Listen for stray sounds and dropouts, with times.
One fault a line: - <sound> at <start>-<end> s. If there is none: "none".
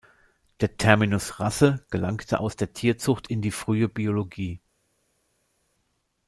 none